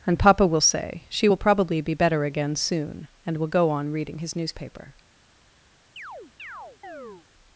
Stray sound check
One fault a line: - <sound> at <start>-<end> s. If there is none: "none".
- chirp at 6.0-7.3 s